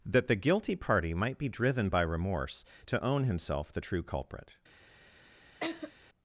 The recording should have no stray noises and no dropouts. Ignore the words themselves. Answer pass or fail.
fail